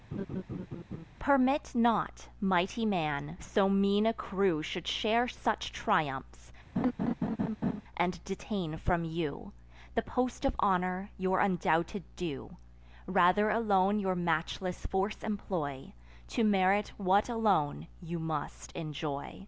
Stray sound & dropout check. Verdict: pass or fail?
fail